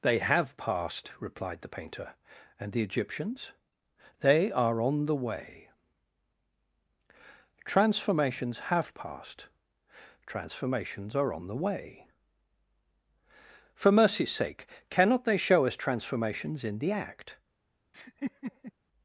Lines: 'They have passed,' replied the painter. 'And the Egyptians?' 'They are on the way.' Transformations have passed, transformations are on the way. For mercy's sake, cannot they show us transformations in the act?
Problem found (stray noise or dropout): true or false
true